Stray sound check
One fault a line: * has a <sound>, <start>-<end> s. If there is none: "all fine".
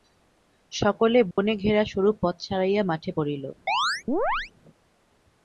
* has a dropout, 1.3-1.4 s
* has a chirp, 3.7-4.5 s